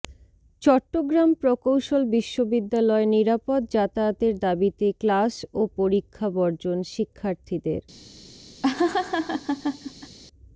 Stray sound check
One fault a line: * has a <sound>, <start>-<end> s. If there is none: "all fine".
* has a laugh, 8.6-10.2 s